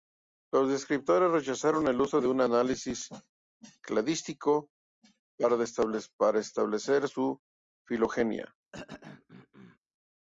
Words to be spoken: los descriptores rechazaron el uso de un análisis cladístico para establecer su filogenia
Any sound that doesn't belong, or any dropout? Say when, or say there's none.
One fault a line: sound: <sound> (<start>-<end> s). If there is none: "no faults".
sound: throat clearing (8.7-9.8 s)